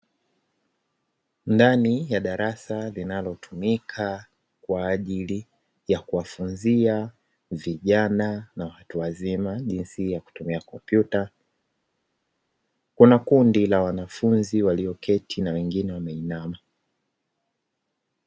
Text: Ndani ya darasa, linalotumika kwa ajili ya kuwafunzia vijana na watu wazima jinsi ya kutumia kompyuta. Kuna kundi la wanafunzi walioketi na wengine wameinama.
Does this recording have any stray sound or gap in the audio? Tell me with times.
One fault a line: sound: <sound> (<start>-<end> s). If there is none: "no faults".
no faults